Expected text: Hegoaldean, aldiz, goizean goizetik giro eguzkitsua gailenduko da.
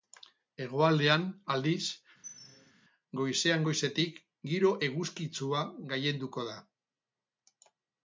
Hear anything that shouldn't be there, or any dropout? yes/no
yes